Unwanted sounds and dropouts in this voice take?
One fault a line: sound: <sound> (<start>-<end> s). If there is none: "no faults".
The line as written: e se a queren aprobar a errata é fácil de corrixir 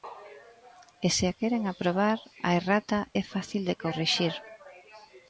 no faults